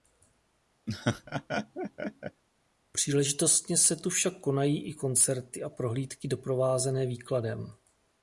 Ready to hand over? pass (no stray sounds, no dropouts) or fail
fail